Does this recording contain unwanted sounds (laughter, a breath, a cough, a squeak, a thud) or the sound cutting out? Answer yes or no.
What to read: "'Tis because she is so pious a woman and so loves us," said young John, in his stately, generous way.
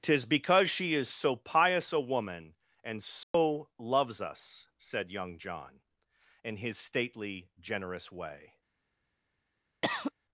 yes